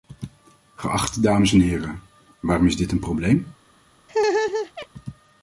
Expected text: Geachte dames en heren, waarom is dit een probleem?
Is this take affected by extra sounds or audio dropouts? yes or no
yes